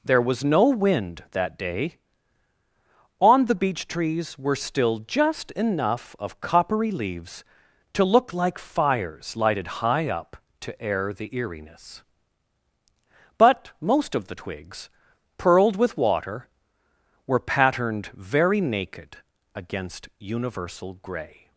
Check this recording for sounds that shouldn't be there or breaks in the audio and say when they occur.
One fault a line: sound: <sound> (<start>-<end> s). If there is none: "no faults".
no faults